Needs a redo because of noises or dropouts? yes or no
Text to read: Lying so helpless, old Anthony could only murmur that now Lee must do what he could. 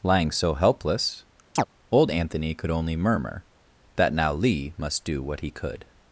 yes